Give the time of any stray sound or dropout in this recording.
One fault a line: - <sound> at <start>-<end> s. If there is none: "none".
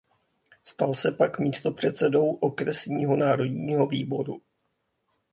none